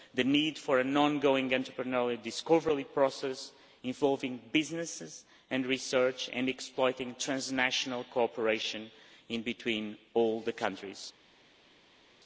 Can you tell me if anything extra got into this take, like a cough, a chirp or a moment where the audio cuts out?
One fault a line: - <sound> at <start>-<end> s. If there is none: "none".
none